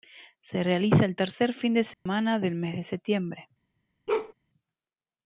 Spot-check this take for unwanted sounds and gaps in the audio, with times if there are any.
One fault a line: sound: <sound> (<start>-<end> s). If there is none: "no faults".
sound: dropout (1.9-2.1 s)
sound: bark (4.1-4.3 s)